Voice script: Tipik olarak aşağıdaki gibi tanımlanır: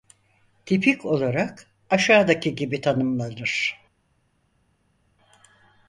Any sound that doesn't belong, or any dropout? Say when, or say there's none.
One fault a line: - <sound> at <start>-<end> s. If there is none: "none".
none